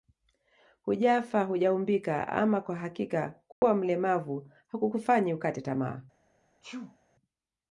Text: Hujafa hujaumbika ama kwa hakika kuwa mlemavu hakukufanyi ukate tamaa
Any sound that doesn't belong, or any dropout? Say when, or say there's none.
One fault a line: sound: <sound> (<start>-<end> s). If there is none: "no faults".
sound: dropout (3.5-3.6 s)
sound: sneeze (6.6-7.0 s)